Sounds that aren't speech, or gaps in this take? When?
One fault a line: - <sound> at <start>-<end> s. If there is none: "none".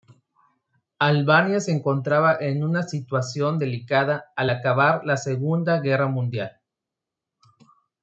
none